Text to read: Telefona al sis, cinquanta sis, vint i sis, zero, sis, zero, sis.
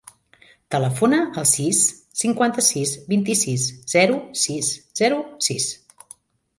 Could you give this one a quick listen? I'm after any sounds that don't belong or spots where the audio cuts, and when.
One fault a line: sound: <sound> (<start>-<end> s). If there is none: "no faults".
no faults